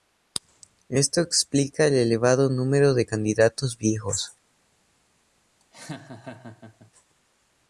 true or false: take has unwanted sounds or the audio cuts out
true